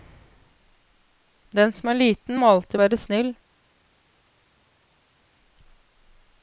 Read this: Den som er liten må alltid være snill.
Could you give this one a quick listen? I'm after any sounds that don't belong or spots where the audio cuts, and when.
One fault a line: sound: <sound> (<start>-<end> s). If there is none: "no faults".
no faults